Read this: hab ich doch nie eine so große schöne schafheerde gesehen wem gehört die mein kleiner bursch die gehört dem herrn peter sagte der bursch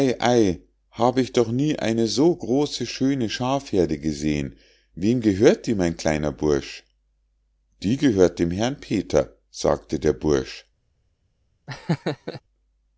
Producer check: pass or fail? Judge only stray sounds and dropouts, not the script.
fail